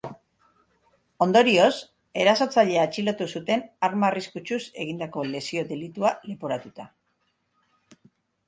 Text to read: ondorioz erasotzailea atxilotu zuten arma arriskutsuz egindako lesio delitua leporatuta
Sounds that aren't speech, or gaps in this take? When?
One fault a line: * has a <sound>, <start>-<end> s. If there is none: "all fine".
all fine